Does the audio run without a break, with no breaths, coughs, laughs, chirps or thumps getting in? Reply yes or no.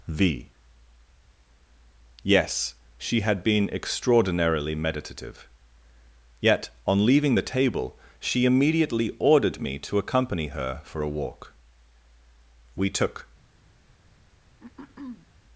no